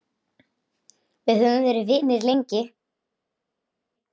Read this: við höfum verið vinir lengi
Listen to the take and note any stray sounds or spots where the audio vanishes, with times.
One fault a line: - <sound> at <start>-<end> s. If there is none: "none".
none